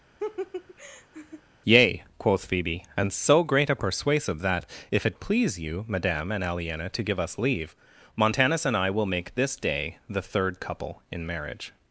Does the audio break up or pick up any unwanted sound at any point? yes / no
yes